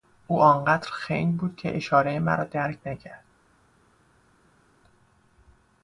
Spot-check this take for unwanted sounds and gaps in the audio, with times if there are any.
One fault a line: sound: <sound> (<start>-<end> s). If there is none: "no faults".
no faults